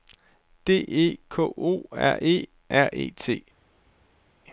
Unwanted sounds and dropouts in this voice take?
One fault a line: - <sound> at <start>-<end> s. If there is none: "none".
none